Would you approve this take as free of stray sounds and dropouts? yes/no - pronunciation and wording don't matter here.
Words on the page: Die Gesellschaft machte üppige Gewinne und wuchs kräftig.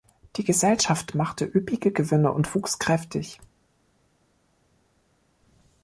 yes